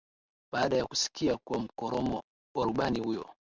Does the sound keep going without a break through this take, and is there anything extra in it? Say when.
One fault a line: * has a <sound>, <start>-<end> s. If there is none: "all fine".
all fine